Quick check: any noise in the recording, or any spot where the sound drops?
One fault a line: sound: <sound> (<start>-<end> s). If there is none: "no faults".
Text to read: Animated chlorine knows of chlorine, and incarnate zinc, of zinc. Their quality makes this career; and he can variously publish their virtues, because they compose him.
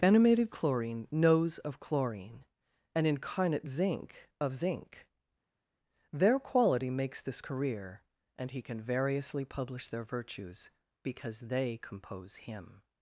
no faults